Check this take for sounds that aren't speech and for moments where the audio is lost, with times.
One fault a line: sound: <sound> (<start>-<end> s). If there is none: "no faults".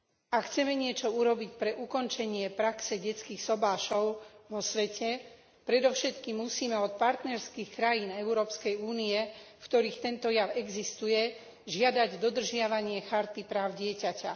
no faults